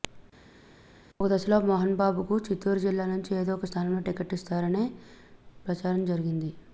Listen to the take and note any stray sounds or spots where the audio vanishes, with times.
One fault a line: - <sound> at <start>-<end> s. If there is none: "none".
none